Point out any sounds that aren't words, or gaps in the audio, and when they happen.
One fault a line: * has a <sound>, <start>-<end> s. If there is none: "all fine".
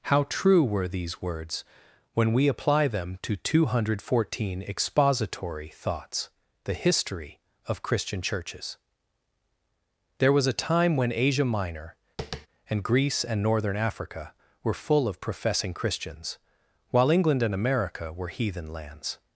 * has a tap, 12.2-12.5 s